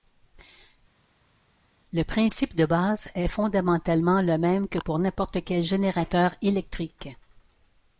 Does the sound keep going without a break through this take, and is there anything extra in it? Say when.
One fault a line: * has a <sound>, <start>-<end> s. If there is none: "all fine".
all fine